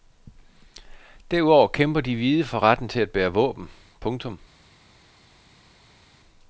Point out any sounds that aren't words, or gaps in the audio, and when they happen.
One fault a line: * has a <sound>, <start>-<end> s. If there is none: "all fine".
all fine